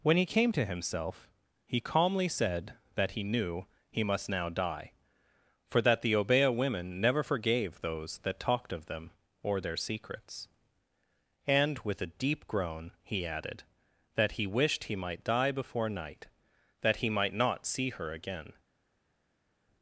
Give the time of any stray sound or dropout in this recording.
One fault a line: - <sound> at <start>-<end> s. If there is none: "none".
none